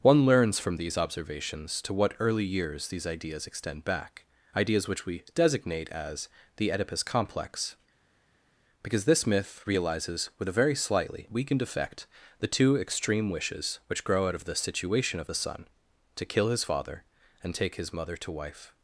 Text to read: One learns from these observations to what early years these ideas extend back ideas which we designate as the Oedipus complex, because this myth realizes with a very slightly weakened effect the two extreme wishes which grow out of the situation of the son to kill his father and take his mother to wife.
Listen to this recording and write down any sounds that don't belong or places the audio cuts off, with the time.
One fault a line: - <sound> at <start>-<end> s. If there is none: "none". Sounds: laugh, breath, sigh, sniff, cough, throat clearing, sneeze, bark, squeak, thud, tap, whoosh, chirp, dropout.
none